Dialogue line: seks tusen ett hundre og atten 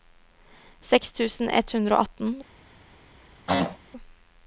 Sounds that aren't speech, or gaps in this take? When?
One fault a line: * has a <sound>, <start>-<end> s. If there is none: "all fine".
* has a throat clearing, 3.5-3.8 s